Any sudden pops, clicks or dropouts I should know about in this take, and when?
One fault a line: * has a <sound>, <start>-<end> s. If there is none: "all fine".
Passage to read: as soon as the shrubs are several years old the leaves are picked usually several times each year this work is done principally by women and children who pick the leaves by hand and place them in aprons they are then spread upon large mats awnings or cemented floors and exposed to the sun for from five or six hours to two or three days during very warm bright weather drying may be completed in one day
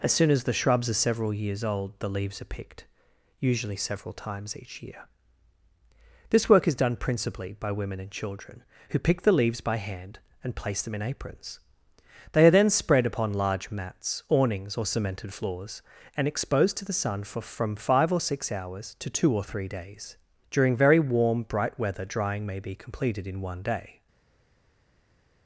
all fine